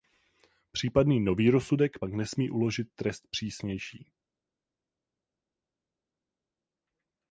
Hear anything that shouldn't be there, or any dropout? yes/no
no